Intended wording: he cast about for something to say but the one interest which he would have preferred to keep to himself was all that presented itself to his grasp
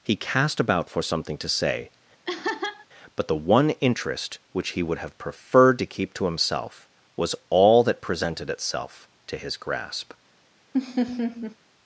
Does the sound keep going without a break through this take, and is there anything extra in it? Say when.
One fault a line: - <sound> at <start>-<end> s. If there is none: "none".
- laugh at 2.2-2.9 s
- laugh at 10.7-11.6 s